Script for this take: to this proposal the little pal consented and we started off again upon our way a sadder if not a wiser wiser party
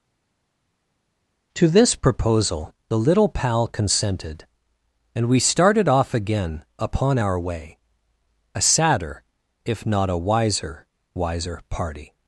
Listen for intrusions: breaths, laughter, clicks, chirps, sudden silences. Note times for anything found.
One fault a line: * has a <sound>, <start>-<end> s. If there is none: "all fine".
all fine